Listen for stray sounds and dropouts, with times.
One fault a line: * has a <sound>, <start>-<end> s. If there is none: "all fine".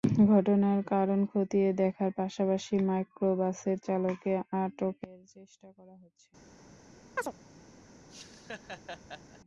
* has a chirp, 7.2-7.3 s
* has a laugh, 8.1-9.4 s